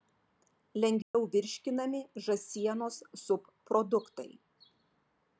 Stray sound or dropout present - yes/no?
yes